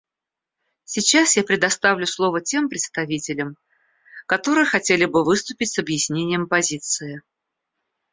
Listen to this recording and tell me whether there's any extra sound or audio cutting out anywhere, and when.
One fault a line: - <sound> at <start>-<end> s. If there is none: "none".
none